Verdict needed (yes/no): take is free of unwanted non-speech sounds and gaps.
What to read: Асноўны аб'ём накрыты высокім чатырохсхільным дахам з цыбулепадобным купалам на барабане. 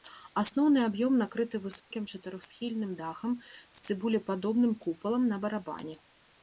no